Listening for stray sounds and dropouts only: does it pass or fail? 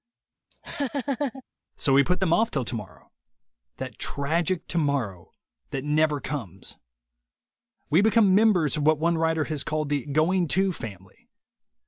fail